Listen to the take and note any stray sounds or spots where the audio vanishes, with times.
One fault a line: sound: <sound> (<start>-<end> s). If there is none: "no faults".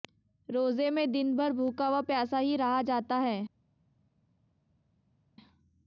no faults